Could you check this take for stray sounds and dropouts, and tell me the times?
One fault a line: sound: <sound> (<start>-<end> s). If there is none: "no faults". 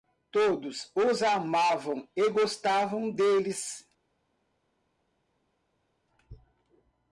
no faults